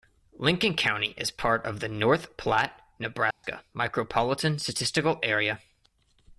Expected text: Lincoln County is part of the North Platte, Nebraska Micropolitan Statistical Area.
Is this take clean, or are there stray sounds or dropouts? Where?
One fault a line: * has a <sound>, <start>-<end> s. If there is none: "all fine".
* has a dropout, 3.3-3.4 s